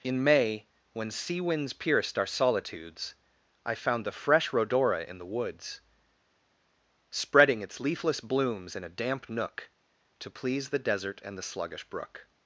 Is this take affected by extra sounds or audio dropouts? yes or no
no